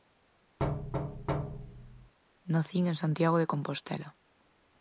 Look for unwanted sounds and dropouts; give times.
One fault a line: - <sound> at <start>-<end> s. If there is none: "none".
- thud at 0.6-2.1 s